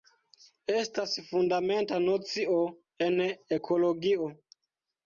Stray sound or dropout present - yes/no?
no